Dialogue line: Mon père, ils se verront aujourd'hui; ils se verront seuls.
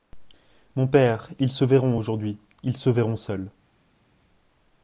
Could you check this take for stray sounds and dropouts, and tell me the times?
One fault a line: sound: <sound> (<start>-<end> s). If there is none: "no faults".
no faults